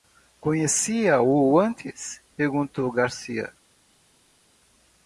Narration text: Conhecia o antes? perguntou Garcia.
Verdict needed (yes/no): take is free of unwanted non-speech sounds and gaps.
yes